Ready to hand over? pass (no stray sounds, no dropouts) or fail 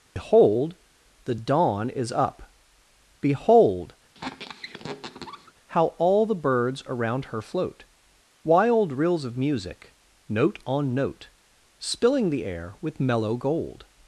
fail